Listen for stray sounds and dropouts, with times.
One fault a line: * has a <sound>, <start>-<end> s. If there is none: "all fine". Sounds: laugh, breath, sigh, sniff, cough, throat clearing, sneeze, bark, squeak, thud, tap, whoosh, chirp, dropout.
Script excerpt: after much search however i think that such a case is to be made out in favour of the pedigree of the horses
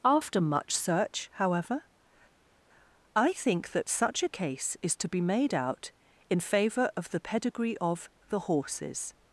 all fine